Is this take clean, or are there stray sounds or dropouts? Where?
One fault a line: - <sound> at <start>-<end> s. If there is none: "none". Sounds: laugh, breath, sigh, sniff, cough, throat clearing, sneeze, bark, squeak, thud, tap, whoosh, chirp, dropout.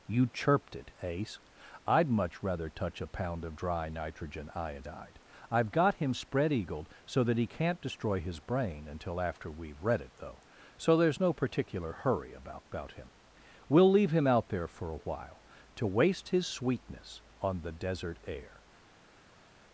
none